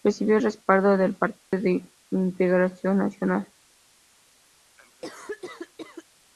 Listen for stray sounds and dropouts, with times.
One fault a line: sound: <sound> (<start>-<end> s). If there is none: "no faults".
sound: dropout (1.4-1.5 s)
sound: cough (4.8-6.0 s)